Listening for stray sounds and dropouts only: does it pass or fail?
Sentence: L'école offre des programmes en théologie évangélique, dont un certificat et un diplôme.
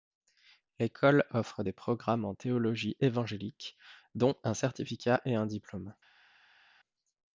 pass